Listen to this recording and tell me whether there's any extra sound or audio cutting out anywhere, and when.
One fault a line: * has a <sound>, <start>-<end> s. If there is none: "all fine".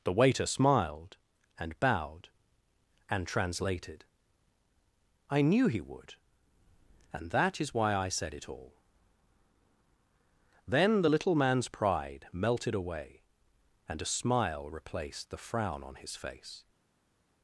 all fine